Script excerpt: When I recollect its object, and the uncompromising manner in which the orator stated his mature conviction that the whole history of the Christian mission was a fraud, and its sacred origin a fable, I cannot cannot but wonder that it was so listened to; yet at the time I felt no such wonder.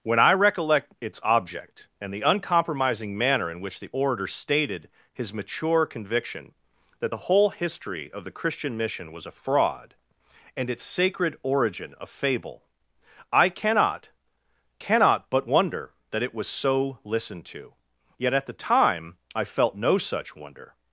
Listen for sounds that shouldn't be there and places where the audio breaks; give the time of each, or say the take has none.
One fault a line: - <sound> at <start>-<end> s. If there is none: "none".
none